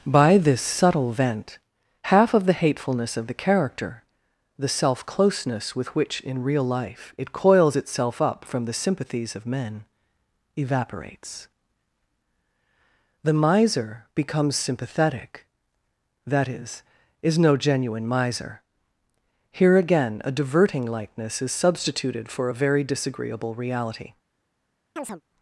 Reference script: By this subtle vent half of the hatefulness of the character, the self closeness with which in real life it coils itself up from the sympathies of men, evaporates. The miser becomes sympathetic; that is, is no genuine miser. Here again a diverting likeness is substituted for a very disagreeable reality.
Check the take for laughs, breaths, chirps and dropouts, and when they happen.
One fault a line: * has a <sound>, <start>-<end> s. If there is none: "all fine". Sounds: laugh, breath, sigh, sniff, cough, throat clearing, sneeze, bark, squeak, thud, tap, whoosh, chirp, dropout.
* has a chirp, 25.0-25.2 s